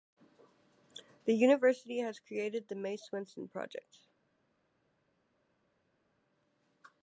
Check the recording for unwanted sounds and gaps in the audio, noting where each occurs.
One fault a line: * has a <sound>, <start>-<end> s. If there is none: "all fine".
all fine